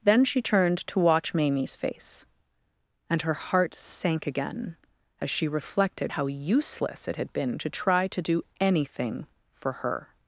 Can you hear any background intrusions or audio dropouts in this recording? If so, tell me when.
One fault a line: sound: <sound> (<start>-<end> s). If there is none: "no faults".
no faults